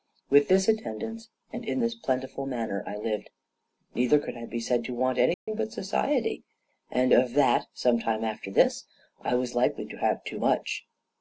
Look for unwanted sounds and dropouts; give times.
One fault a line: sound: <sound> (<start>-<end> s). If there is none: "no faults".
sound: dropout (5.3-5.5 s)